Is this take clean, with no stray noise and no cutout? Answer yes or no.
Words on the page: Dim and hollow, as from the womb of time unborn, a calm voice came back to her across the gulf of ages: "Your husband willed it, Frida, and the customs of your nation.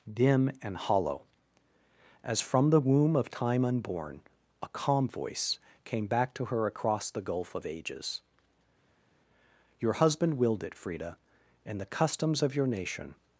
yes